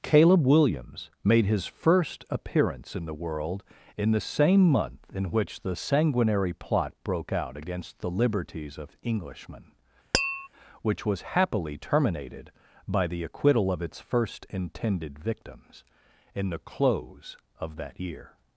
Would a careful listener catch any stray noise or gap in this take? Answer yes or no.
yes